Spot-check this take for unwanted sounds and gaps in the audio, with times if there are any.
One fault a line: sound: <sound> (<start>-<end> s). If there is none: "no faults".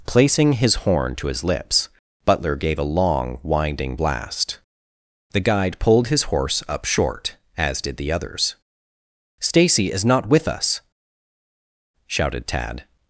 no faults